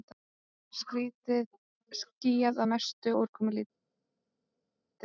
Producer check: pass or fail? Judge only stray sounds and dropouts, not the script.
pass